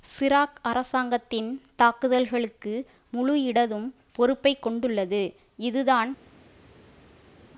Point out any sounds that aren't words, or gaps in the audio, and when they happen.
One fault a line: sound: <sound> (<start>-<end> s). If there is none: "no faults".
no faults